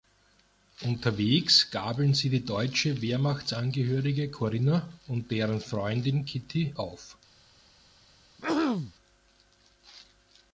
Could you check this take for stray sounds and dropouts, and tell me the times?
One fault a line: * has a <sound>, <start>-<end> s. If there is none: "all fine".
* has a throat clearing, 8.4-8.9 s